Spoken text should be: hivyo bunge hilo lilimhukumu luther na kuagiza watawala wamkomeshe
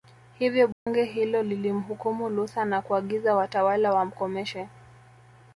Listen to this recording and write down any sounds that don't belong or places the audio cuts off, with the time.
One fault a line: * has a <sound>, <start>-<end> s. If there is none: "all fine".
* has a dropout, 0.7-0.9 s